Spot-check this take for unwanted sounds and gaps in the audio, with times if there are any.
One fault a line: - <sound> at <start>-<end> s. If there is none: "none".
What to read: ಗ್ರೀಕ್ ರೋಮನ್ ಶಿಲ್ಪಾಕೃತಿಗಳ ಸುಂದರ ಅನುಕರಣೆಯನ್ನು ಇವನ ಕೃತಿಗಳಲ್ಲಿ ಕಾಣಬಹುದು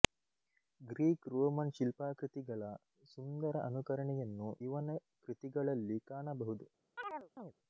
- chirp at 7.0-7.5 s